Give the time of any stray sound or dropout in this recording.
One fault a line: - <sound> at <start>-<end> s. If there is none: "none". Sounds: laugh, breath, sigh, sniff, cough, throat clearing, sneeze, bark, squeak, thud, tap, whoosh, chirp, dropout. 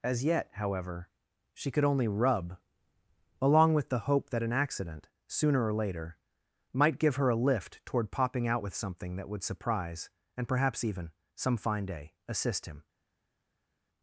none